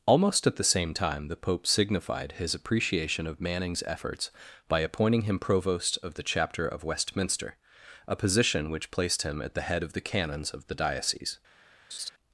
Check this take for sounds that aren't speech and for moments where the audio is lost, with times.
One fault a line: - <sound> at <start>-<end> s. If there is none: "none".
- laugh at 11.9-12.1 s